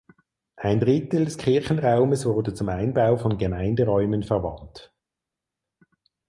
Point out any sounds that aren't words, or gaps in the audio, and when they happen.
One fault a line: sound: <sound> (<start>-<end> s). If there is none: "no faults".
no faults